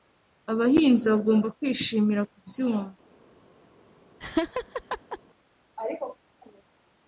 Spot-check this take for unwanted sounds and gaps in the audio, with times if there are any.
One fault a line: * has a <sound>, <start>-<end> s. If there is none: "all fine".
* has a laugh, 4.2-5.2 s